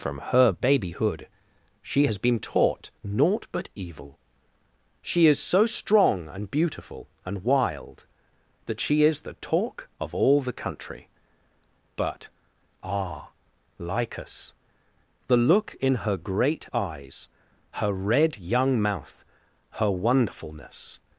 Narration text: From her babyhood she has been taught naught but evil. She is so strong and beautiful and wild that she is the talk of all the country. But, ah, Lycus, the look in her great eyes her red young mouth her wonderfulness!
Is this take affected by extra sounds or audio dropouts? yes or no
no